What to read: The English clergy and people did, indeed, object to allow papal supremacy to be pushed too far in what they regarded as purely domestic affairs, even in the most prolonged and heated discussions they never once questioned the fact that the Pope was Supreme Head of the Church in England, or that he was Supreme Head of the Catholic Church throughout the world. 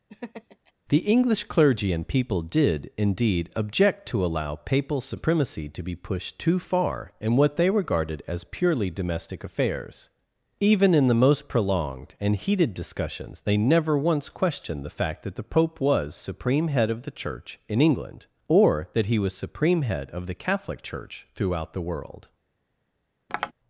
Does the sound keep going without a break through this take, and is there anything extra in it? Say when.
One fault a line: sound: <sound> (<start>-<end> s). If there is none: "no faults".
sound: laugh (0.1-0.7 s)
sound: tap (23.3-23.5 s)